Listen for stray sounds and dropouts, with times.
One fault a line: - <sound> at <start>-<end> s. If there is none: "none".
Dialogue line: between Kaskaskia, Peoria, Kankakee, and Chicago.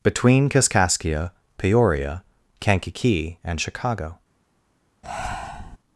- breath at 5.0-5.8 s